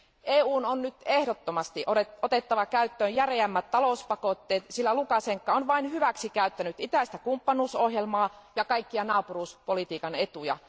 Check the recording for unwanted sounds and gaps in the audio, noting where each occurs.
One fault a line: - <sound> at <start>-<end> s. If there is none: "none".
none